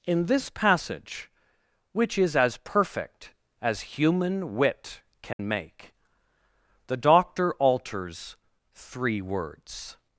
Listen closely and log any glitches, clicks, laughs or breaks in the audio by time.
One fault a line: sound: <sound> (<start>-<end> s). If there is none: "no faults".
sound: dropout (5.3-5.4 s)